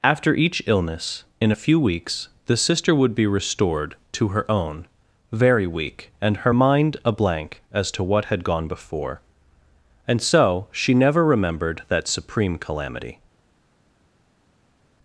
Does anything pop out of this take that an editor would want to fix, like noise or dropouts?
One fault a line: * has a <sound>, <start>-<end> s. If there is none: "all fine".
all fine